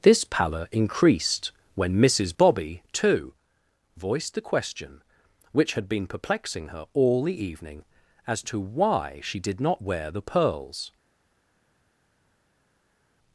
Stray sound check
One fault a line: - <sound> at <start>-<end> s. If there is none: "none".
none